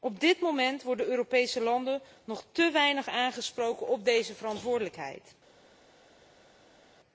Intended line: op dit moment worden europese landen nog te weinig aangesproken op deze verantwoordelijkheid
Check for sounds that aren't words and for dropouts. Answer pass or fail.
pass